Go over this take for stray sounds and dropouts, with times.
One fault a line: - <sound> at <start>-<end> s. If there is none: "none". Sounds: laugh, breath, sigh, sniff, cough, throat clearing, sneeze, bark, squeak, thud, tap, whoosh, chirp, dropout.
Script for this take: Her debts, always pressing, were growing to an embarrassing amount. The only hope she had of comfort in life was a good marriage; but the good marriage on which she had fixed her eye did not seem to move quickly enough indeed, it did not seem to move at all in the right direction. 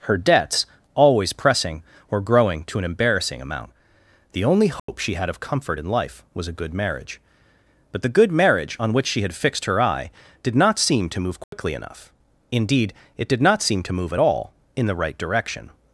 - dropout at 4.8-4.9 s
- dropout at 11.4-11.5 s